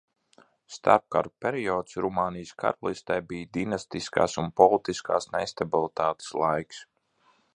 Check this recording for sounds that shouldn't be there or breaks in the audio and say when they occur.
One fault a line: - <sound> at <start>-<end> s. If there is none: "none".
none